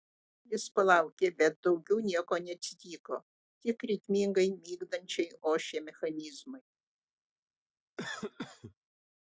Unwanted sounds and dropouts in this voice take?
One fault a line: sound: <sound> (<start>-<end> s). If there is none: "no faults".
sound: cough (8.0-8.7 s)